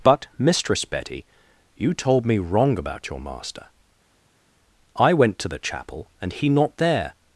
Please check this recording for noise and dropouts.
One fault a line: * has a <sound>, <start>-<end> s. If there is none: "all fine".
all fine